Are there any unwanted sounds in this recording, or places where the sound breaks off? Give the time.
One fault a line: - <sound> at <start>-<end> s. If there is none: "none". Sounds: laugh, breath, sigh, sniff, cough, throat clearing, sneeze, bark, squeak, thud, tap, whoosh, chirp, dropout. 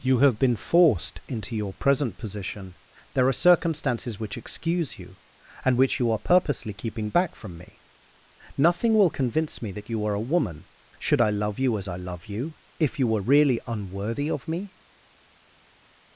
none